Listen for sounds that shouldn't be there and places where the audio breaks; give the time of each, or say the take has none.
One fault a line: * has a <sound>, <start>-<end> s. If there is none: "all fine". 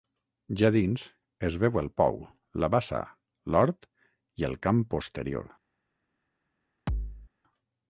* has a thud, 6.9-7.3 s